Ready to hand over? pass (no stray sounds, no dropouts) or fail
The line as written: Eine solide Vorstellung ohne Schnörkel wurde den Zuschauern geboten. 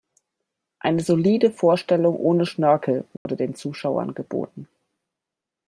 fail